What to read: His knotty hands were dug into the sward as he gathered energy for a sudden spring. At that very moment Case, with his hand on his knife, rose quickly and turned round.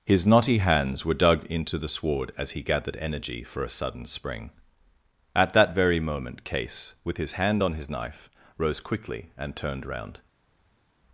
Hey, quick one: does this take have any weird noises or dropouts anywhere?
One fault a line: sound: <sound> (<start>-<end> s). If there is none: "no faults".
no faults